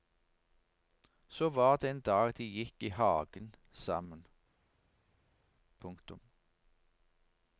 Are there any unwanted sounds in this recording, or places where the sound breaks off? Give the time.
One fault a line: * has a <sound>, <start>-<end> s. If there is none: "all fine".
all fine